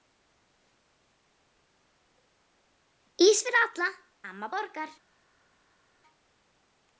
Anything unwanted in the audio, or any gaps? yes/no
no